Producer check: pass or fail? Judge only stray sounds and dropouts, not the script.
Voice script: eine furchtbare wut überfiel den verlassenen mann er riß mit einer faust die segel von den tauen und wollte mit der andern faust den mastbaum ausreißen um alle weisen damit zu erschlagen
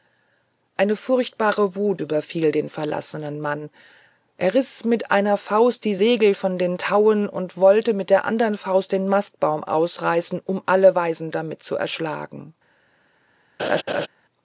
fail